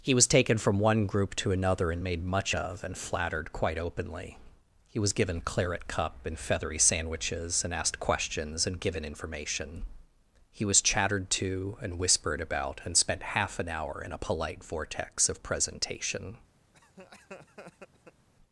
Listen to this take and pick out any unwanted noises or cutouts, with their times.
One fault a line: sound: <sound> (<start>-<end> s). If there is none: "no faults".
sound: laugh (16.7-18.3 s)